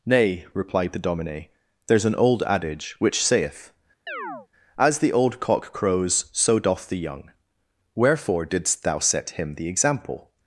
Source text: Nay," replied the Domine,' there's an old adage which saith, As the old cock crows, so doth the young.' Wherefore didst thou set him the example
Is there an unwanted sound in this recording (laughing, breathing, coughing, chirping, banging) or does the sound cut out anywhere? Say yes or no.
yes